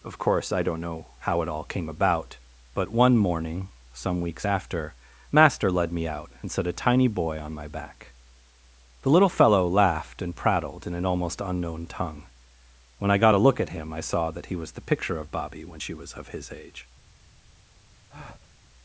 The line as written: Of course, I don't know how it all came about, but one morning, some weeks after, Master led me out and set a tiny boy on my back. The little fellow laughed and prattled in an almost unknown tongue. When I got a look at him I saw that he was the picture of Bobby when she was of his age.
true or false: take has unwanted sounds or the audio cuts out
true